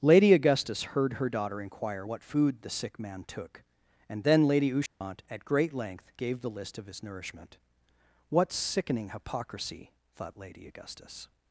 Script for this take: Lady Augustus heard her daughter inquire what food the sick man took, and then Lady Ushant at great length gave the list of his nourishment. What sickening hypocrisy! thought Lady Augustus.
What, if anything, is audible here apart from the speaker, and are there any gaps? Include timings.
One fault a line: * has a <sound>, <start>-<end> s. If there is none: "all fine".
* has a dropout, 4.9-5.0 s